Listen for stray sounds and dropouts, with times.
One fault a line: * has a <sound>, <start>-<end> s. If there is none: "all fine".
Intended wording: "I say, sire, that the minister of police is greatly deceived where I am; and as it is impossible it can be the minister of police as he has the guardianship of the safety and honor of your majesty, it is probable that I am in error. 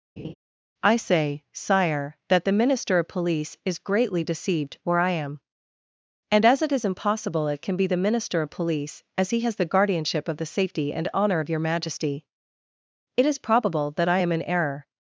* has a laugh, 0.2-0.3 s